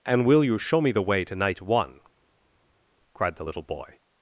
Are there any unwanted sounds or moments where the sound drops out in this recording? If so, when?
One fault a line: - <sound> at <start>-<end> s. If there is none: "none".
none